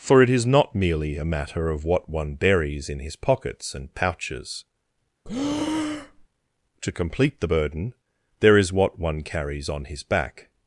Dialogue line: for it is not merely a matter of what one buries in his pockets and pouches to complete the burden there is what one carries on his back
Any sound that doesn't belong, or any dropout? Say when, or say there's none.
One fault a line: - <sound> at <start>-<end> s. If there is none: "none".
- breath at 5.2-6.3 s